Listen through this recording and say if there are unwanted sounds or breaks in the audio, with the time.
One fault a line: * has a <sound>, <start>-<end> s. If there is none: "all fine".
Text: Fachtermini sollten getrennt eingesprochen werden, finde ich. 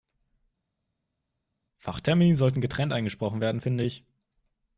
all fine